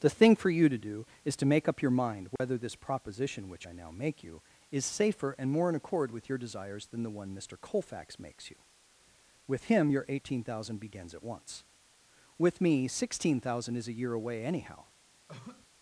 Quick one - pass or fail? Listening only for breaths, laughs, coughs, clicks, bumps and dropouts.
fail